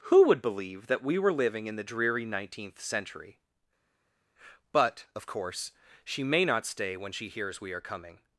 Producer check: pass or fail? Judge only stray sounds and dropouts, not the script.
pass